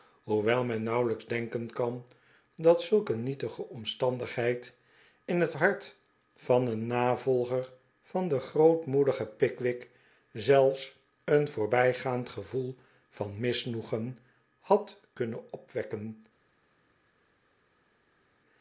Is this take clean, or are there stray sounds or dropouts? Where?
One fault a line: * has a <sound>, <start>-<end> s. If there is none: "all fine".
all fine